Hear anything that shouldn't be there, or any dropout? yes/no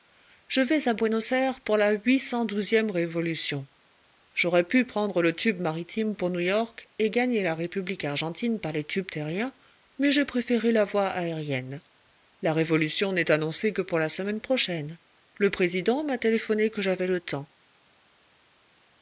no